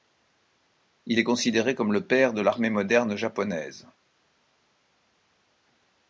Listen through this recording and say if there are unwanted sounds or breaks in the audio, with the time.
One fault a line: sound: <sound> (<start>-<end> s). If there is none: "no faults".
no faults